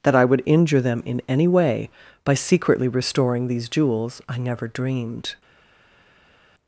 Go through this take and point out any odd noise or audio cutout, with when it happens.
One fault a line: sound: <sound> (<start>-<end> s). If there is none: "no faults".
no faults